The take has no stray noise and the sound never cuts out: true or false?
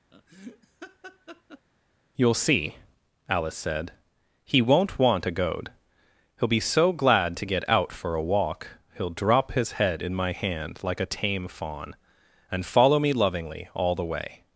false